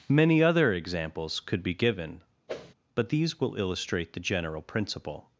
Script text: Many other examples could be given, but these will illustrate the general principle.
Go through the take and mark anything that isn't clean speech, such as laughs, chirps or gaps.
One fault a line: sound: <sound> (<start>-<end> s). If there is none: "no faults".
sound: whoosh (2.5-2.7 s)